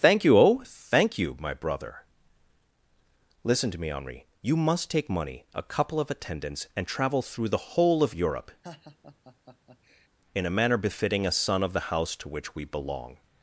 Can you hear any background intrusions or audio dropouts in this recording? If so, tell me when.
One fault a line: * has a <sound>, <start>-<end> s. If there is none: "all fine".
* has a laugh, 8.6-10.1 s